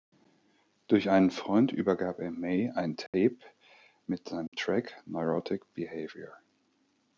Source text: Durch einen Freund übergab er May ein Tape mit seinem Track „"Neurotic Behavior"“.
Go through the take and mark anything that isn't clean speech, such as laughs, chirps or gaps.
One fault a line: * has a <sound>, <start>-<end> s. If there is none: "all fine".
* has a dropout, 3.1-3.1 s
* has a dropout, 4.5-4.5 s